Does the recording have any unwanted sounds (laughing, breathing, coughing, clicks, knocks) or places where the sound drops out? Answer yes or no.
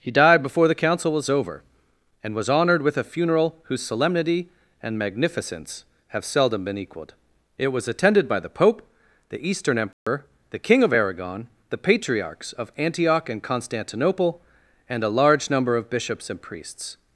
yes